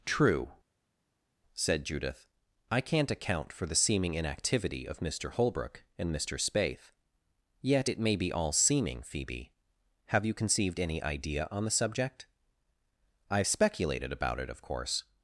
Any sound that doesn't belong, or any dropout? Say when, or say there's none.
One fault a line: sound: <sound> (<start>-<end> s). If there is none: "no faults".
no faults